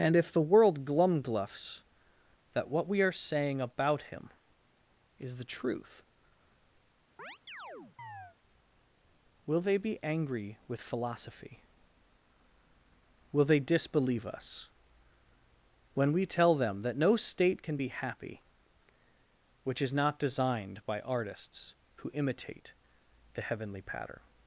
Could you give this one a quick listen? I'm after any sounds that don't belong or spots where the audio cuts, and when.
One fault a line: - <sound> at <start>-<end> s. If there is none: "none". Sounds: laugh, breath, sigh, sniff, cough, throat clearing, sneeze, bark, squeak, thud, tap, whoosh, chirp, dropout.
- chirp at 7.2-8.4 s